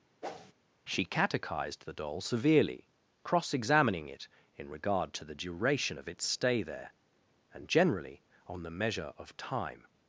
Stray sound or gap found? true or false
true